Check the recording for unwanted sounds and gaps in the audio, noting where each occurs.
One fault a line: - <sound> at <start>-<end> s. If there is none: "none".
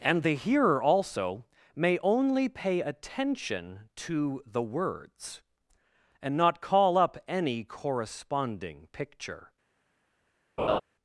- laugh at 10.6-10.8 s